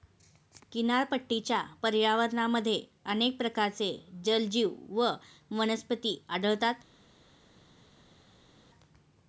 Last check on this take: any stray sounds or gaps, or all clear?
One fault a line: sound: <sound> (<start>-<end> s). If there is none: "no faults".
no faults